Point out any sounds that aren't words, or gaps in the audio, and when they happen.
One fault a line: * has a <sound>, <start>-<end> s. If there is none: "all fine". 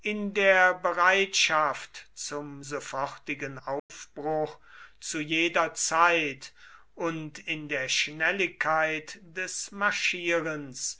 * has a dropout, 3.8-3.9 s